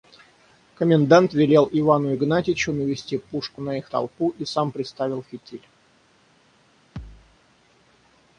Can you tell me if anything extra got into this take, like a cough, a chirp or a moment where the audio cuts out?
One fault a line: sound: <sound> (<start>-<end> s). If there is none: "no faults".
sound: thud (7.0-7.4 s)